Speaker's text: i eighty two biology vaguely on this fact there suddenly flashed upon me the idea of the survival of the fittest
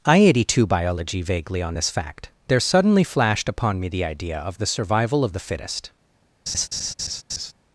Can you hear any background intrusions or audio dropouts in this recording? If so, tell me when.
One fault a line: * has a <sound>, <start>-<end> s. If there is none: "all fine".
* has a laugh, 6.5-7.5 s